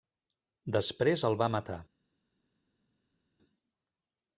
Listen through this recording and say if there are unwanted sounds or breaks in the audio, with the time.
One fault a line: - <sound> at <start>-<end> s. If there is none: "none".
none